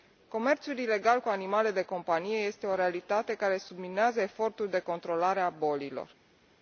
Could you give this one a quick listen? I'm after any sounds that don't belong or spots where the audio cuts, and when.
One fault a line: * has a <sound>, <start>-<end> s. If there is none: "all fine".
all fine